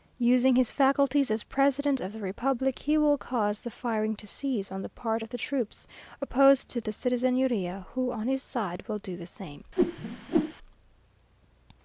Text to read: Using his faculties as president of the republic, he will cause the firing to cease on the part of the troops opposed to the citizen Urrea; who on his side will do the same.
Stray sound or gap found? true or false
true